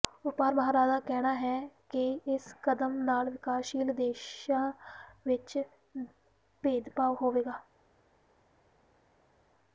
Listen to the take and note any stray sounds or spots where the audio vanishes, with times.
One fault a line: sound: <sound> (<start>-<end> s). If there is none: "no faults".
no faults